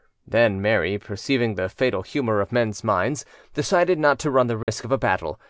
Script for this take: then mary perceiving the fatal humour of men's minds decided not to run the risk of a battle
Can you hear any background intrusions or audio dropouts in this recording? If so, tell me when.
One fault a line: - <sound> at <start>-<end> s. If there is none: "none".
- dropout at 4.6-4.7 s